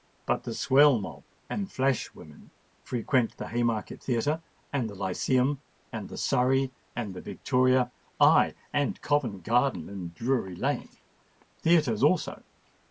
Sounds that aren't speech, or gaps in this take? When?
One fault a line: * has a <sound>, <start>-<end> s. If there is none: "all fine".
all fine